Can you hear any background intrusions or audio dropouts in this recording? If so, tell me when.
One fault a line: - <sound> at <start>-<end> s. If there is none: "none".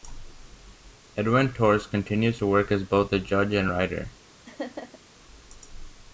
- laugh at 4.4-5.0 s